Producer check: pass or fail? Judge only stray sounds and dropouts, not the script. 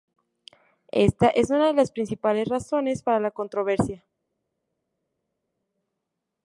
pass